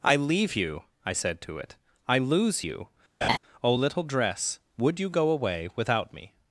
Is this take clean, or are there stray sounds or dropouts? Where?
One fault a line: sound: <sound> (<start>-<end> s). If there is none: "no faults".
sound: laugh (3.2-3.4 s)